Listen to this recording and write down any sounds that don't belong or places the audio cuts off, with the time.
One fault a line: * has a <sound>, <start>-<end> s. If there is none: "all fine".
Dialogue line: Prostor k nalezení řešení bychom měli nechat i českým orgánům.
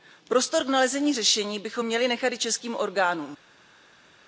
all fine